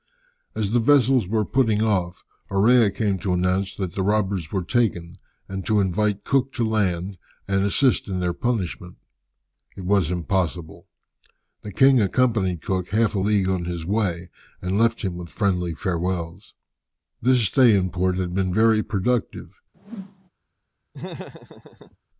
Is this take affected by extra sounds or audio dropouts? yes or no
yes